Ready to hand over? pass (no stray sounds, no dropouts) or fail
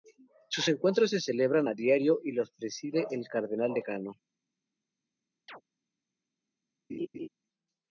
fail